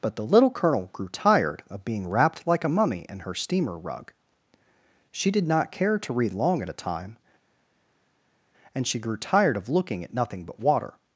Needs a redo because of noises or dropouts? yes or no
no